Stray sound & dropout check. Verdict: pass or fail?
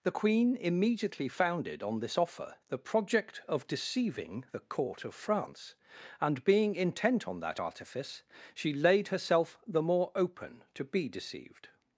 pass